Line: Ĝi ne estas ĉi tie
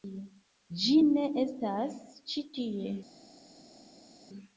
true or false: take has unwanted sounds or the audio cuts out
false